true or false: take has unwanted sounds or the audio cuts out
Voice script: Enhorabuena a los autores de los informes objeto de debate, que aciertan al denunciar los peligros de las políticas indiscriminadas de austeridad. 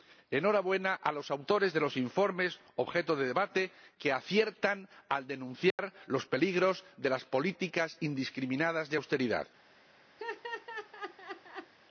true